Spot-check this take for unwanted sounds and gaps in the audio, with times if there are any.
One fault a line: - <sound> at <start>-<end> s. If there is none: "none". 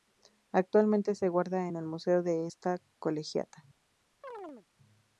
- chirp at 4.2-4.7 s